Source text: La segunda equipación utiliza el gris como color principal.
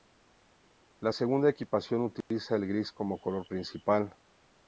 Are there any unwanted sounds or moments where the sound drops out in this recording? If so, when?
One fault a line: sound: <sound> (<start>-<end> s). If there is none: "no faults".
sound: dropout (2.2-2.3 s)